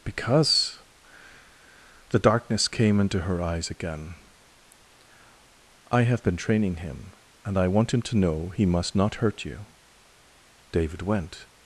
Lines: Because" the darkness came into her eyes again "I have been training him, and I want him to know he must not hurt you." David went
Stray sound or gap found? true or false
false